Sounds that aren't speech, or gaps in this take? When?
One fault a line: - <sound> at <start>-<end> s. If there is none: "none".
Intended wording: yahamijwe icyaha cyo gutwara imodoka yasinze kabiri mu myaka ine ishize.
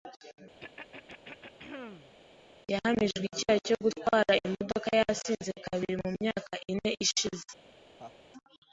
- throat clearing at 0.6-2.2 s
- laugh at 8.0-8.2 s